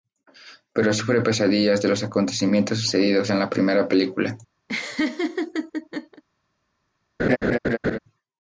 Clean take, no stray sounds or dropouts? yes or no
no